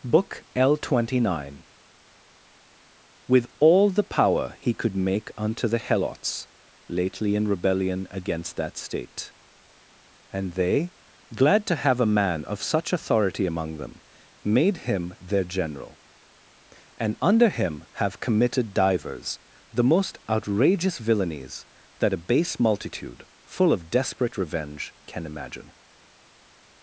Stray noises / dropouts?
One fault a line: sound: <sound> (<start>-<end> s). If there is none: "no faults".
no faults